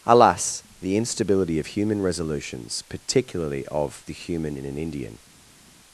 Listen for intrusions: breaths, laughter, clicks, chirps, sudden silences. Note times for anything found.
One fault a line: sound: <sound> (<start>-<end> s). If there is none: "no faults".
no faults